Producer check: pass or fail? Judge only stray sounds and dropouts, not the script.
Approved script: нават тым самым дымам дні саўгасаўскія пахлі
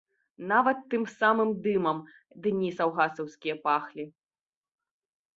pass